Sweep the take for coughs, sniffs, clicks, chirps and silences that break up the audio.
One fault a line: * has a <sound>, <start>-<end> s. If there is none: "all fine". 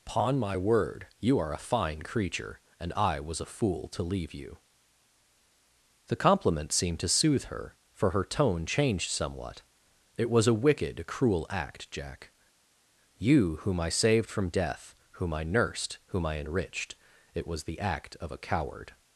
all fine